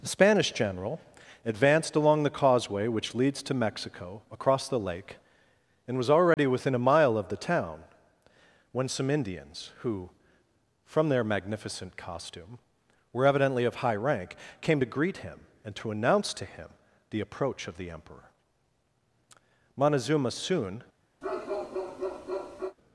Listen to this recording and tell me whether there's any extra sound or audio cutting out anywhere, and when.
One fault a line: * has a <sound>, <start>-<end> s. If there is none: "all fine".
* has a dropout, 6.3-6.4 s
* has a bark, 21.2-22.8 s